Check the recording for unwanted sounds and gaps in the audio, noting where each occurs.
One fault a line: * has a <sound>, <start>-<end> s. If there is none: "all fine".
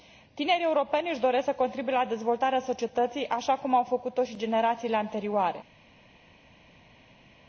all fine